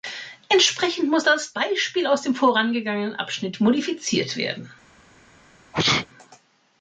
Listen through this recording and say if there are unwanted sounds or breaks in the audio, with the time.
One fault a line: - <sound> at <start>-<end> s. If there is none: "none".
- sneeze at 5.7-6.1 s